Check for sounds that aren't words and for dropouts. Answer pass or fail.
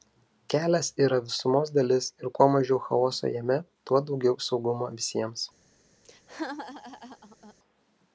fail